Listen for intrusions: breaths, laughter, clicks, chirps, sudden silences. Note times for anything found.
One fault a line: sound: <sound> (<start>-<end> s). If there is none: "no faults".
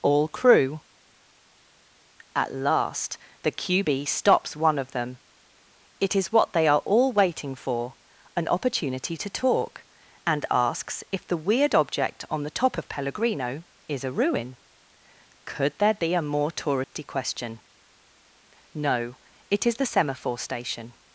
sound: dropout (16.8-16.9 s)